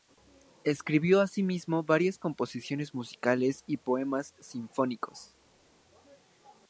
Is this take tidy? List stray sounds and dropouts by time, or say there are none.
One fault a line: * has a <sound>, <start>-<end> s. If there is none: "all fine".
all fine